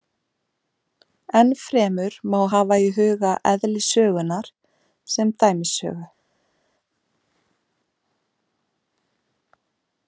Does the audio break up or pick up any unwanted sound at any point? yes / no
no